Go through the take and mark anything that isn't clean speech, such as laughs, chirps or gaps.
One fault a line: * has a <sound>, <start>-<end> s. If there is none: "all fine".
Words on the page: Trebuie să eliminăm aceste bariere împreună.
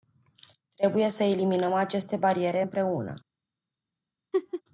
* has a laugh, 4.3-4.6 s